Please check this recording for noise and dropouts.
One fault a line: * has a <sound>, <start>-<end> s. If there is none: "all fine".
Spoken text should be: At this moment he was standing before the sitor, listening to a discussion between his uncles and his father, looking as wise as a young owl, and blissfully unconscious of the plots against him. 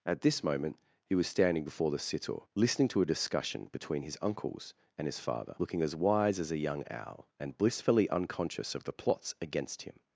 all fine